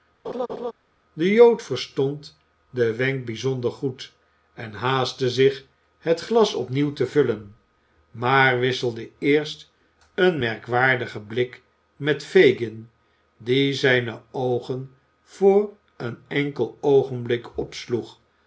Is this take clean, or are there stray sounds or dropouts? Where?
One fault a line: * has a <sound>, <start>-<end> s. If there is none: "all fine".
* has a laugh, 0.2-0.7 s